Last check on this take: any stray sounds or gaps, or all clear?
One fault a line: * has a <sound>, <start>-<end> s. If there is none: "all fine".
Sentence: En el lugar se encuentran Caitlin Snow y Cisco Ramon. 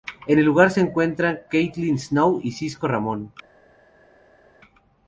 all fine